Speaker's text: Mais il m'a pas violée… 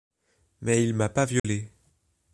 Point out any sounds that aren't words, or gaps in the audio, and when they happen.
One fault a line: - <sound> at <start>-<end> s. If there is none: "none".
- dropout at 1.4-1.4 s